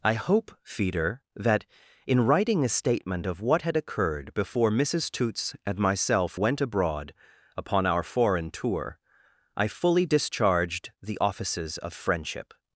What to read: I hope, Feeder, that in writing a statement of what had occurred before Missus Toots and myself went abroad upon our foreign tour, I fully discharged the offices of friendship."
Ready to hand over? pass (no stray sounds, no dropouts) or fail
pass